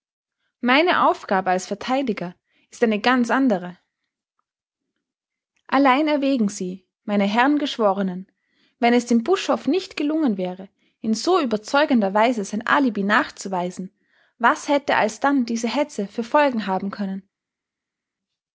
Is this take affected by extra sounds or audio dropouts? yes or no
no